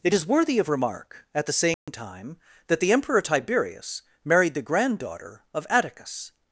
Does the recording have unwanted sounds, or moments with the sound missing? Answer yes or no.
yes